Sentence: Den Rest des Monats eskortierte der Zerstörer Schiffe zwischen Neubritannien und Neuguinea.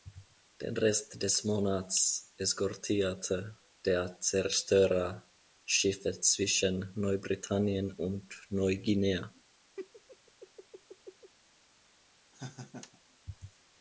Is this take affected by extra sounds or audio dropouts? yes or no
yes